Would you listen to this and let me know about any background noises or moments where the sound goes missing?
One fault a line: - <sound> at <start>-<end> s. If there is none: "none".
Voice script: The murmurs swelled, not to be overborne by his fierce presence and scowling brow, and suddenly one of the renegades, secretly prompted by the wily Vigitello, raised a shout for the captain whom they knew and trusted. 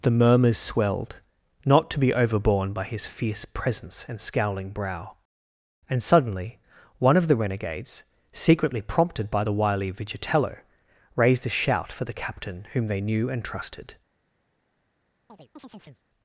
- chirp at 15.3-16.0 s